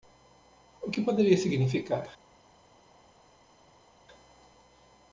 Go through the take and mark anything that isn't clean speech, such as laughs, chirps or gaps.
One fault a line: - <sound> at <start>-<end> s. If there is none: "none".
none